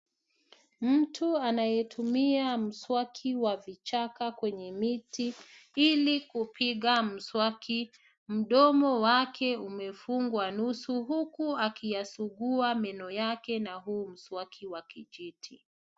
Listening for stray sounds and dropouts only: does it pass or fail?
pass